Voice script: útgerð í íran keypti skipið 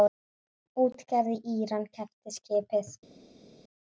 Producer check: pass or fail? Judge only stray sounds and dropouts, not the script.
pass